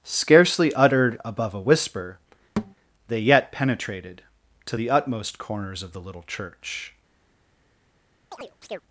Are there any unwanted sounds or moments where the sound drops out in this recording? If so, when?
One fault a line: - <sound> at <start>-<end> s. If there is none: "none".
- thud at 2.6-2.7 s
- chirp at 8.3-8.8 s